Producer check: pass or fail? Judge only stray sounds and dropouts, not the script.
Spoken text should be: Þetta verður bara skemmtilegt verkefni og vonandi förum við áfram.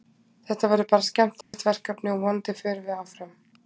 fail